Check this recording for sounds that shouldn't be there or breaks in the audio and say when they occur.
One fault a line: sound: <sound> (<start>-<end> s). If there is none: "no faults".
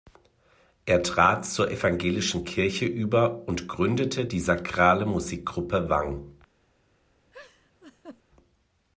sound: laugh (7.3-8.2 s)